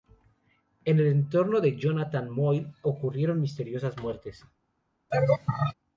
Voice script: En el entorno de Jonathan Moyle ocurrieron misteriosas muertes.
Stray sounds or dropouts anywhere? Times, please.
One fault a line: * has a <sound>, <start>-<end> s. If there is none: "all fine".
* has a laugh, 5.1-5.7 s